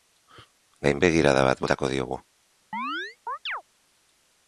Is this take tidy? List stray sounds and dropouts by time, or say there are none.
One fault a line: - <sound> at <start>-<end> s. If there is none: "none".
- chirp at 2.7-3.6 s